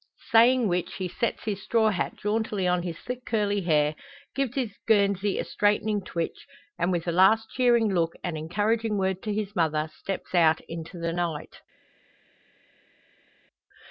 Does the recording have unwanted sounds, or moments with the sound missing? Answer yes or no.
no